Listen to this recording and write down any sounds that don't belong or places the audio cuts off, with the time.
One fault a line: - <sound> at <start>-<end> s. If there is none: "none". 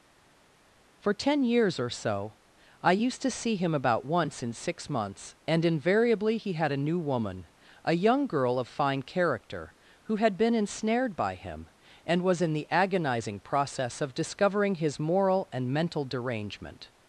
none